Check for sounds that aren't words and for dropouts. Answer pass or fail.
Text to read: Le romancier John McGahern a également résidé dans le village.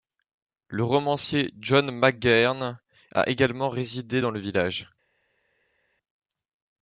pass